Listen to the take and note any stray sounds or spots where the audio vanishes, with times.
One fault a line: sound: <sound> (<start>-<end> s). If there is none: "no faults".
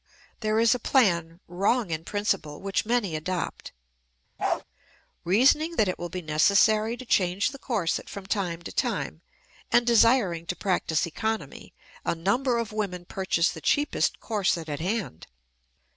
sound: bark (4.4-4.6 s)